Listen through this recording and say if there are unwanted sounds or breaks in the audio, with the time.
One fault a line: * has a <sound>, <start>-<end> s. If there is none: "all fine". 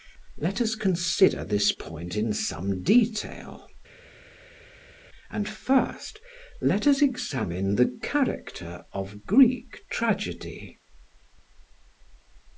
all fine